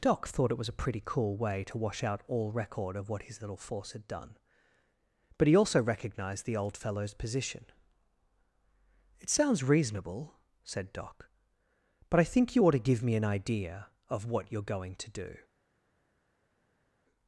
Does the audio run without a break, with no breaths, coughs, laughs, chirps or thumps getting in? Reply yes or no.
yes